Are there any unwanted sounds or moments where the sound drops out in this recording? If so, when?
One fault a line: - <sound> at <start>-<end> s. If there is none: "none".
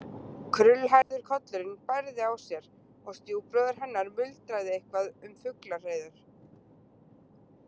- dropout at 1.0-1.1 s